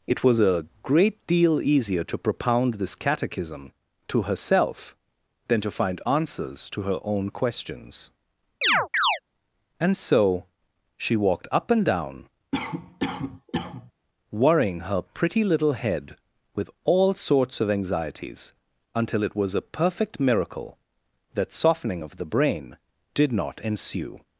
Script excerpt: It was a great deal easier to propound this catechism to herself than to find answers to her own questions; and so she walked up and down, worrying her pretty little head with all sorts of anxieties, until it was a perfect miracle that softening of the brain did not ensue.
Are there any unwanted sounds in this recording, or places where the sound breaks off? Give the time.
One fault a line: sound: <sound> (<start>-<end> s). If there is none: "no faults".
sound: chirp (8.6-9.2 s)
sound: cough (12.5-13.9 s)